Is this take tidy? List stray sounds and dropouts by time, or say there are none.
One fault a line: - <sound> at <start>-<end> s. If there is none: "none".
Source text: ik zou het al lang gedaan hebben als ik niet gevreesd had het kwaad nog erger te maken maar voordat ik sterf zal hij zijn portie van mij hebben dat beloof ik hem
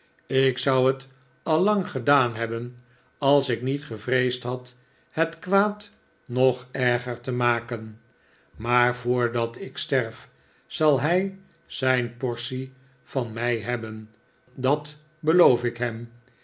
none